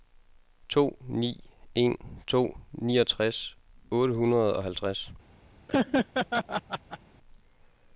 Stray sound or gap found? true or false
true